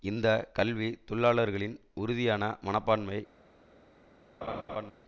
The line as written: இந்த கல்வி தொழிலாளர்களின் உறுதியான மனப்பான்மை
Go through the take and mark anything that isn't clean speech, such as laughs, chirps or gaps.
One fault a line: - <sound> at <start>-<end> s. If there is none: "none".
- laugh at 4.4-4.9 s